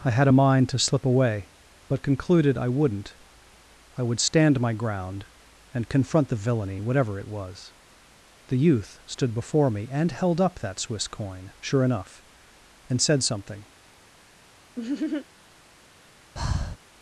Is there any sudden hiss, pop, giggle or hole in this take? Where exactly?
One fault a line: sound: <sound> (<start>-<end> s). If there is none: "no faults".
sound: laugh (14.8-15.3 s)
sound: breath (16.4-16.8 s)